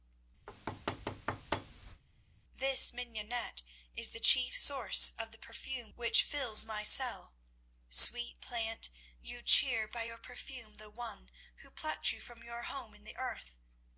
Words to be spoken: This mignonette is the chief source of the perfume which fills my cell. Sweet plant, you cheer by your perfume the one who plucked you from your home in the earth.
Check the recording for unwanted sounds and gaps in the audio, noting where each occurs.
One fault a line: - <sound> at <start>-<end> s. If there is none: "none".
- thud at 0.5-2.0 s